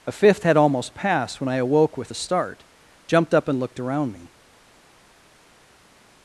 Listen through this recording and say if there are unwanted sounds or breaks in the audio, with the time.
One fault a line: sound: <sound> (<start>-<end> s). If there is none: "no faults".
no faults